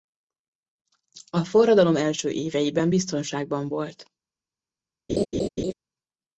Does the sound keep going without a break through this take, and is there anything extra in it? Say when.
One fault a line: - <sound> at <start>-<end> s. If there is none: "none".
- laugh at 5.1-5.7 s